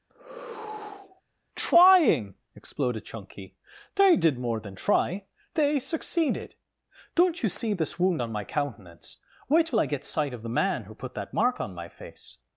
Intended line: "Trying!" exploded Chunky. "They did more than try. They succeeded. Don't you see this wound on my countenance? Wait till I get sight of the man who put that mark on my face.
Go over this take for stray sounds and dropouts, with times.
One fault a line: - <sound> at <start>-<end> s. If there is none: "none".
- sigh at 0.1-1.2 s